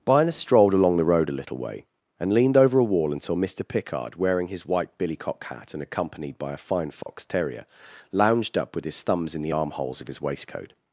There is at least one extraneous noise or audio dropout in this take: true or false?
true